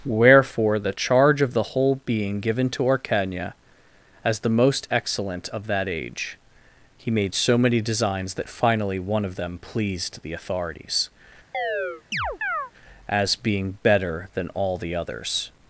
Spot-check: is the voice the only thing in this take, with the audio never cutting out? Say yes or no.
no